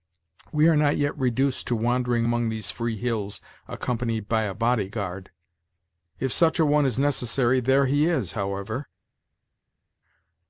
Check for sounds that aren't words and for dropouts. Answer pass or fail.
pass